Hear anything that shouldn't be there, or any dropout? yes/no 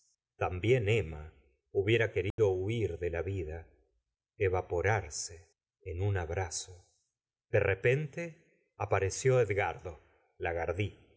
yes